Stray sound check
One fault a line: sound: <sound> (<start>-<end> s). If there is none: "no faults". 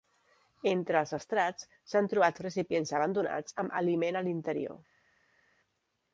no faults